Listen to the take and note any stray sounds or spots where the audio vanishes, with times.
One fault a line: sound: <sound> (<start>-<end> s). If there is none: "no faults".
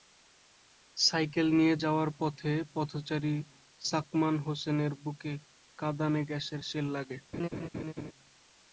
sound: laugh (7.3-8.1 s)